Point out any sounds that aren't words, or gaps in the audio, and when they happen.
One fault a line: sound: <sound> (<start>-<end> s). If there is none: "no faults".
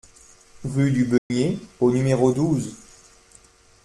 sound: dropout (1.2-1.3 s)